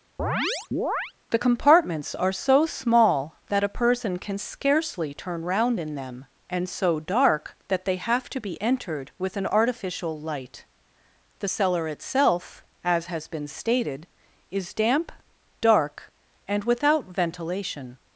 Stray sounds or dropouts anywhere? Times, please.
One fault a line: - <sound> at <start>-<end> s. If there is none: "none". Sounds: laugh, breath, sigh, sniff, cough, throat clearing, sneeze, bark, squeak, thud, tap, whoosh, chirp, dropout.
- chirp at 0.2-1.1 s